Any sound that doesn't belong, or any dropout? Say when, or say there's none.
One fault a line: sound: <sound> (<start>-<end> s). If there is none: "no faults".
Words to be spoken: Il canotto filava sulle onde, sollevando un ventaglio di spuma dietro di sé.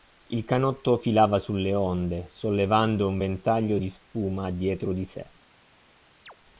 sound: chirp (6.3-6.3 s)